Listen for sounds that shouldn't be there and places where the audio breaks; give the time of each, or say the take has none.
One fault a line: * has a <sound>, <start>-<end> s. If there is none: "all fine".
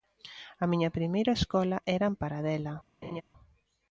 * has a laugh, 3.0-3.2 s